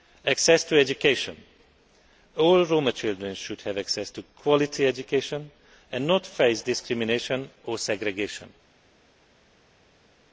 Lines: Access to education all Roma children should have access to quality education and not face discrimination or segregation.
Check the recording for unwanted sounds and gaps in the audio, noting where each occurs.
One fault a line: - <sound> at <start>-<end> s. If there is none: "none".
none